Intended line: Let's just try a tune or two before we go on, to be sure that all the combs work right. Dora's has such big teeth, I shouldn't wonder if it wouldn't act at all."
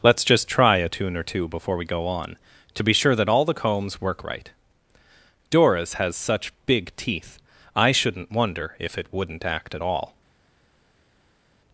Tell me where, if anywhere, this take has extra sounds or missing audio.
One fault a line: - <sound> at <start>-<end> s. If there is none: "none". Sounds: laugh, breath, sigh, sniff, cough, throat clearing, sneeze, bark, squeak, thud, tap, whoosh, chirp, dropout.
none